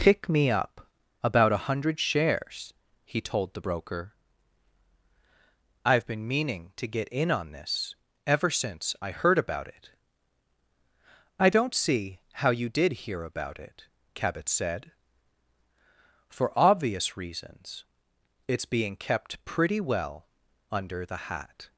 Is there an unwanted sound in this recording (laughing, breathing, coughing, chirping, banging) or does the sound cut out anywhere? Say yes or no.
no